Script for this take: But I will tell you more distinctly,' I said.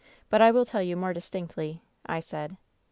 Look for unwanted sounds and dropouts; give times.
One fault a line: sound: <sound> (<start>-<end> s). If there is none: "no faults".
no faults